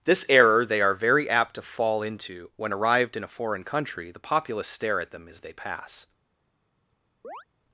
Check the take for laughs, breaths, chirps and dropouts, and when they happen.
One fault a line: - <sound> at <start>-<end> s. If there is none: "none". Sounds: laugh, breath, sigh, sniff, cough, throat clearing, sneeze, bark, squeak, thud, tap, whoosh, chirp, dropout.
- chirp at 7.2-7.4 s